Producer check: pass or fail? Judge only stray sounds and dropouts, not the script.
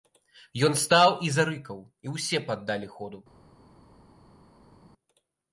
pass